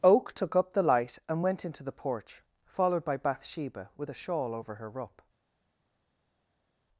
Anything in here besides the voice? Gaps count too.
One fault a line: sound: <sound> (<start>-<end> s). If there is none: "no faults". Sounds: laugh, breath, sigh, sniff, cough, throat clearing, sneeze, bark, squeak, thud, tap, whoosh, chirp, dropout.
no faults